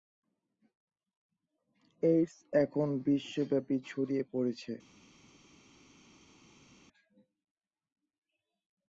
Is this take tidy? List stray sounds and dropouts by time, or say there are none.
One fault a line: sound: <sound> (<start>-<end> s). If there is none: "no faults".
no faults